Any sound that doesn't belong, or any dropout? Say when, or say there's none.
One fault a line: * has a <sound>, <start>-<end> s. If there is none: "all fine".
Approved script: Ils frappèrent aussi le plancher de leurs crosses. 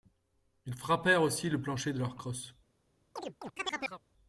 * has a chirp, 3.2-4.0 s